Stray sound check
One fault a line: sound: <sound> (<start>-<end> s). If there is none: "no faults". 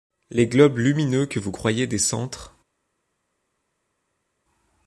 no faults